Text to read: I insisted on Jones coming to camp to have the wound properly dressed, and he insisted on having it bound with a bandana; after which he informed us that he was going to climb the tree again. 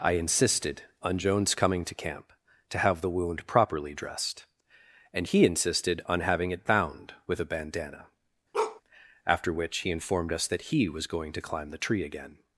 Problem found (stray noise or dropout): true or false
true